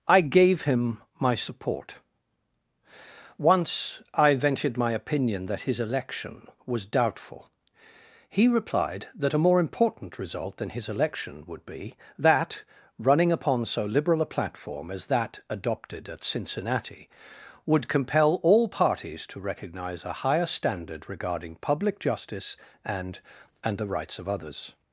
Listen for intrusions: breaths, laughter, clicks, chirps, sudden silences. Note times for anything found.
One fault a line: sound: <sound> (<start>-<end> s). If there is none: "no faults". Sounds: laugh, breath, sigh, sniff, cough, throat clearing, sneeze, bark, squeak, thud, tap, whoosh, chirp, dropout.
no faults